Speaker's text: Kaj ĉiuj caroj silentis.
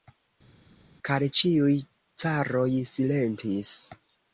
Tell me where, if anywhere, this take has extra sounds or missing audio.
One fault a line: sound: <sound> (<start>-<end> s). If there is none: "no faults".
no faults